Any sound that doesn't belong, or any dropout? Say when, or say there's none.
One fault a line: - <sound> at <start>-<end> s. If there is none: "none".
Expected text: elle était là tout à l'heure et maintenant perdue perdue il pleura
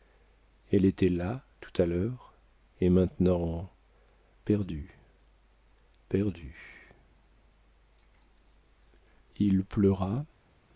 none